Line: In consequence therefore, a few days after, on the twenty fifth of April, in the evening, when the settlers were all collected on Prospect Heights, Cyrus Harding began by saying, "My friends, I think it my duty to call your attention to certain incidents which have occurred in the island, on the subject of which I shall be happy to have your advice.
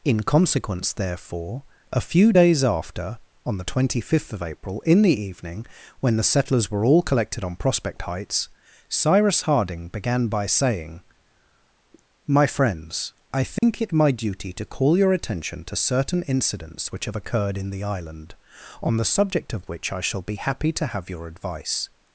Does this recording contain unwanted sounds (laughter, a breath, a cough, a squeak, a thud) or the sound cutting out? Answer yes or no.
yes